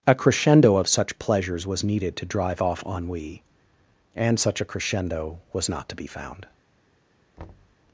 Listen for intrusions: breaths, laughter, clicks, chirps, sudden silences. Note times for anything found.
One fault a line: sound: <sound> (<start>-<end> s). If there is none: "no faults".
sound: thud (7.4-7.8 s)